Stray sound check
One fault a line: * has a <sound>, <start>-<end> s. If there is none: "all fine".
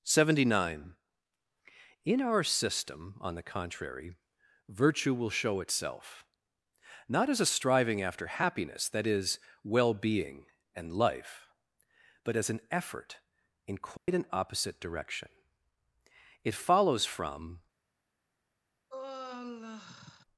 * has a dropout, 14.0-14.1 s
* has a sigh, 18.9-20.2 s